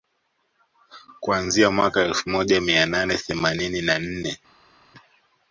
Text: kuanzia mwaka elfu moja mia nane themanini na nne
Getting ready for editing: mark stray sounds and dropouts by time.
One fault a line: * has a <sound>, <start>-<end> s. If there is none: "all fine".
all fine